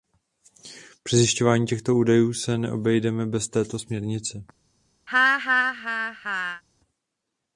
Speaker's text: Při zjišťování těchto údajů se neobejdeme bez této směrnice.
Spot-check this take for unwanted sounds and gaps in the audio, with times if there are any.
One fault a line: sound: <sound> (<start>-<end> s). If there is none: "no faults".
sound: laugh (5.1-6.6 s)